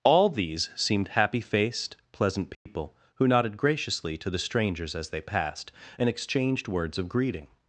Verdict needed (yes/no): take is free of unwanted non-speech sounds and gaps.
no